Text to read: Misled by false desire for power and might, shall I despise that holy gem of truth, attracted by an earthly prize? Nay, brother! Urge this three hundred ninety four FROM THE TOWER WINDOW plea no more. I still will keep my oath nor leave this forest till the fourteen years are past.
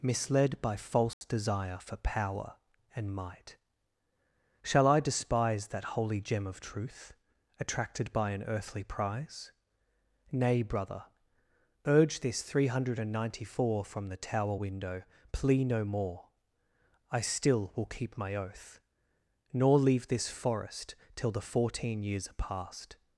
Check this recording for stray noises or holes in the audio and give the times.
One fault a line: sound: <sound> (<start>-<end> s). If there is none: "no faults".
sound: dropout (1.1-1.2 s)